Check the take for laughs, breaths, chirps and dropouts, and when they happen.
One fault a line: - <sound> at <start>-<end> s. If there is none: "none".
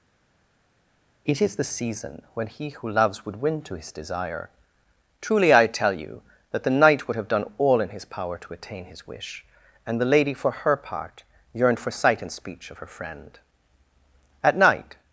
none